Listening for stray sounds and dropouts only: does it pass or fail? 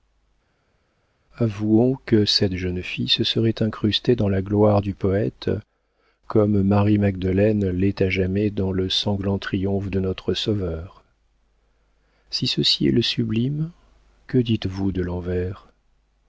pass